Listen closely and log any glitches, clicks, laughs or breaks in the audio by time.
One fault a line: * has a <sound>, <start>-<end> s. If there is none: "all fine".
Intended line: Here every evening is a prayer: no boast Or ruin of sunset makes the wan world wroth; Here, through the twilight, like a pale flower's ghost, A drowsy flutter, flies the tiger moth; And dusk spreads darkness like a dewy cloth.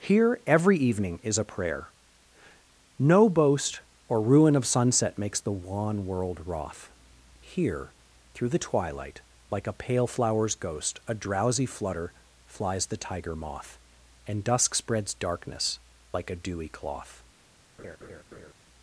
* has a laugh, 17.8-18.5 s